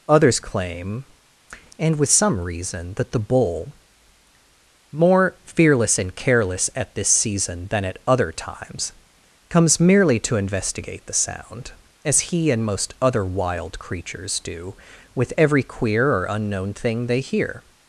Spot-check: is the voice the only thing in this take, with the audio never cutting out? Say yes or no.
yes